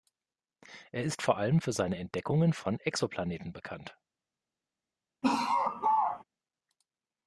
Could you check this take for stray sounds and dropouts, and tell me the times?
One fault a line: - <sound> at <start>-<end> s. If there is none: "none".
- laugh at 5.2-6.2 s